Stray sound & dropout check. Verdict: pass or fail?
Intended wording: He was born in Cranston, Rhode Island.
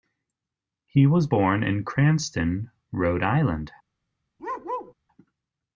fail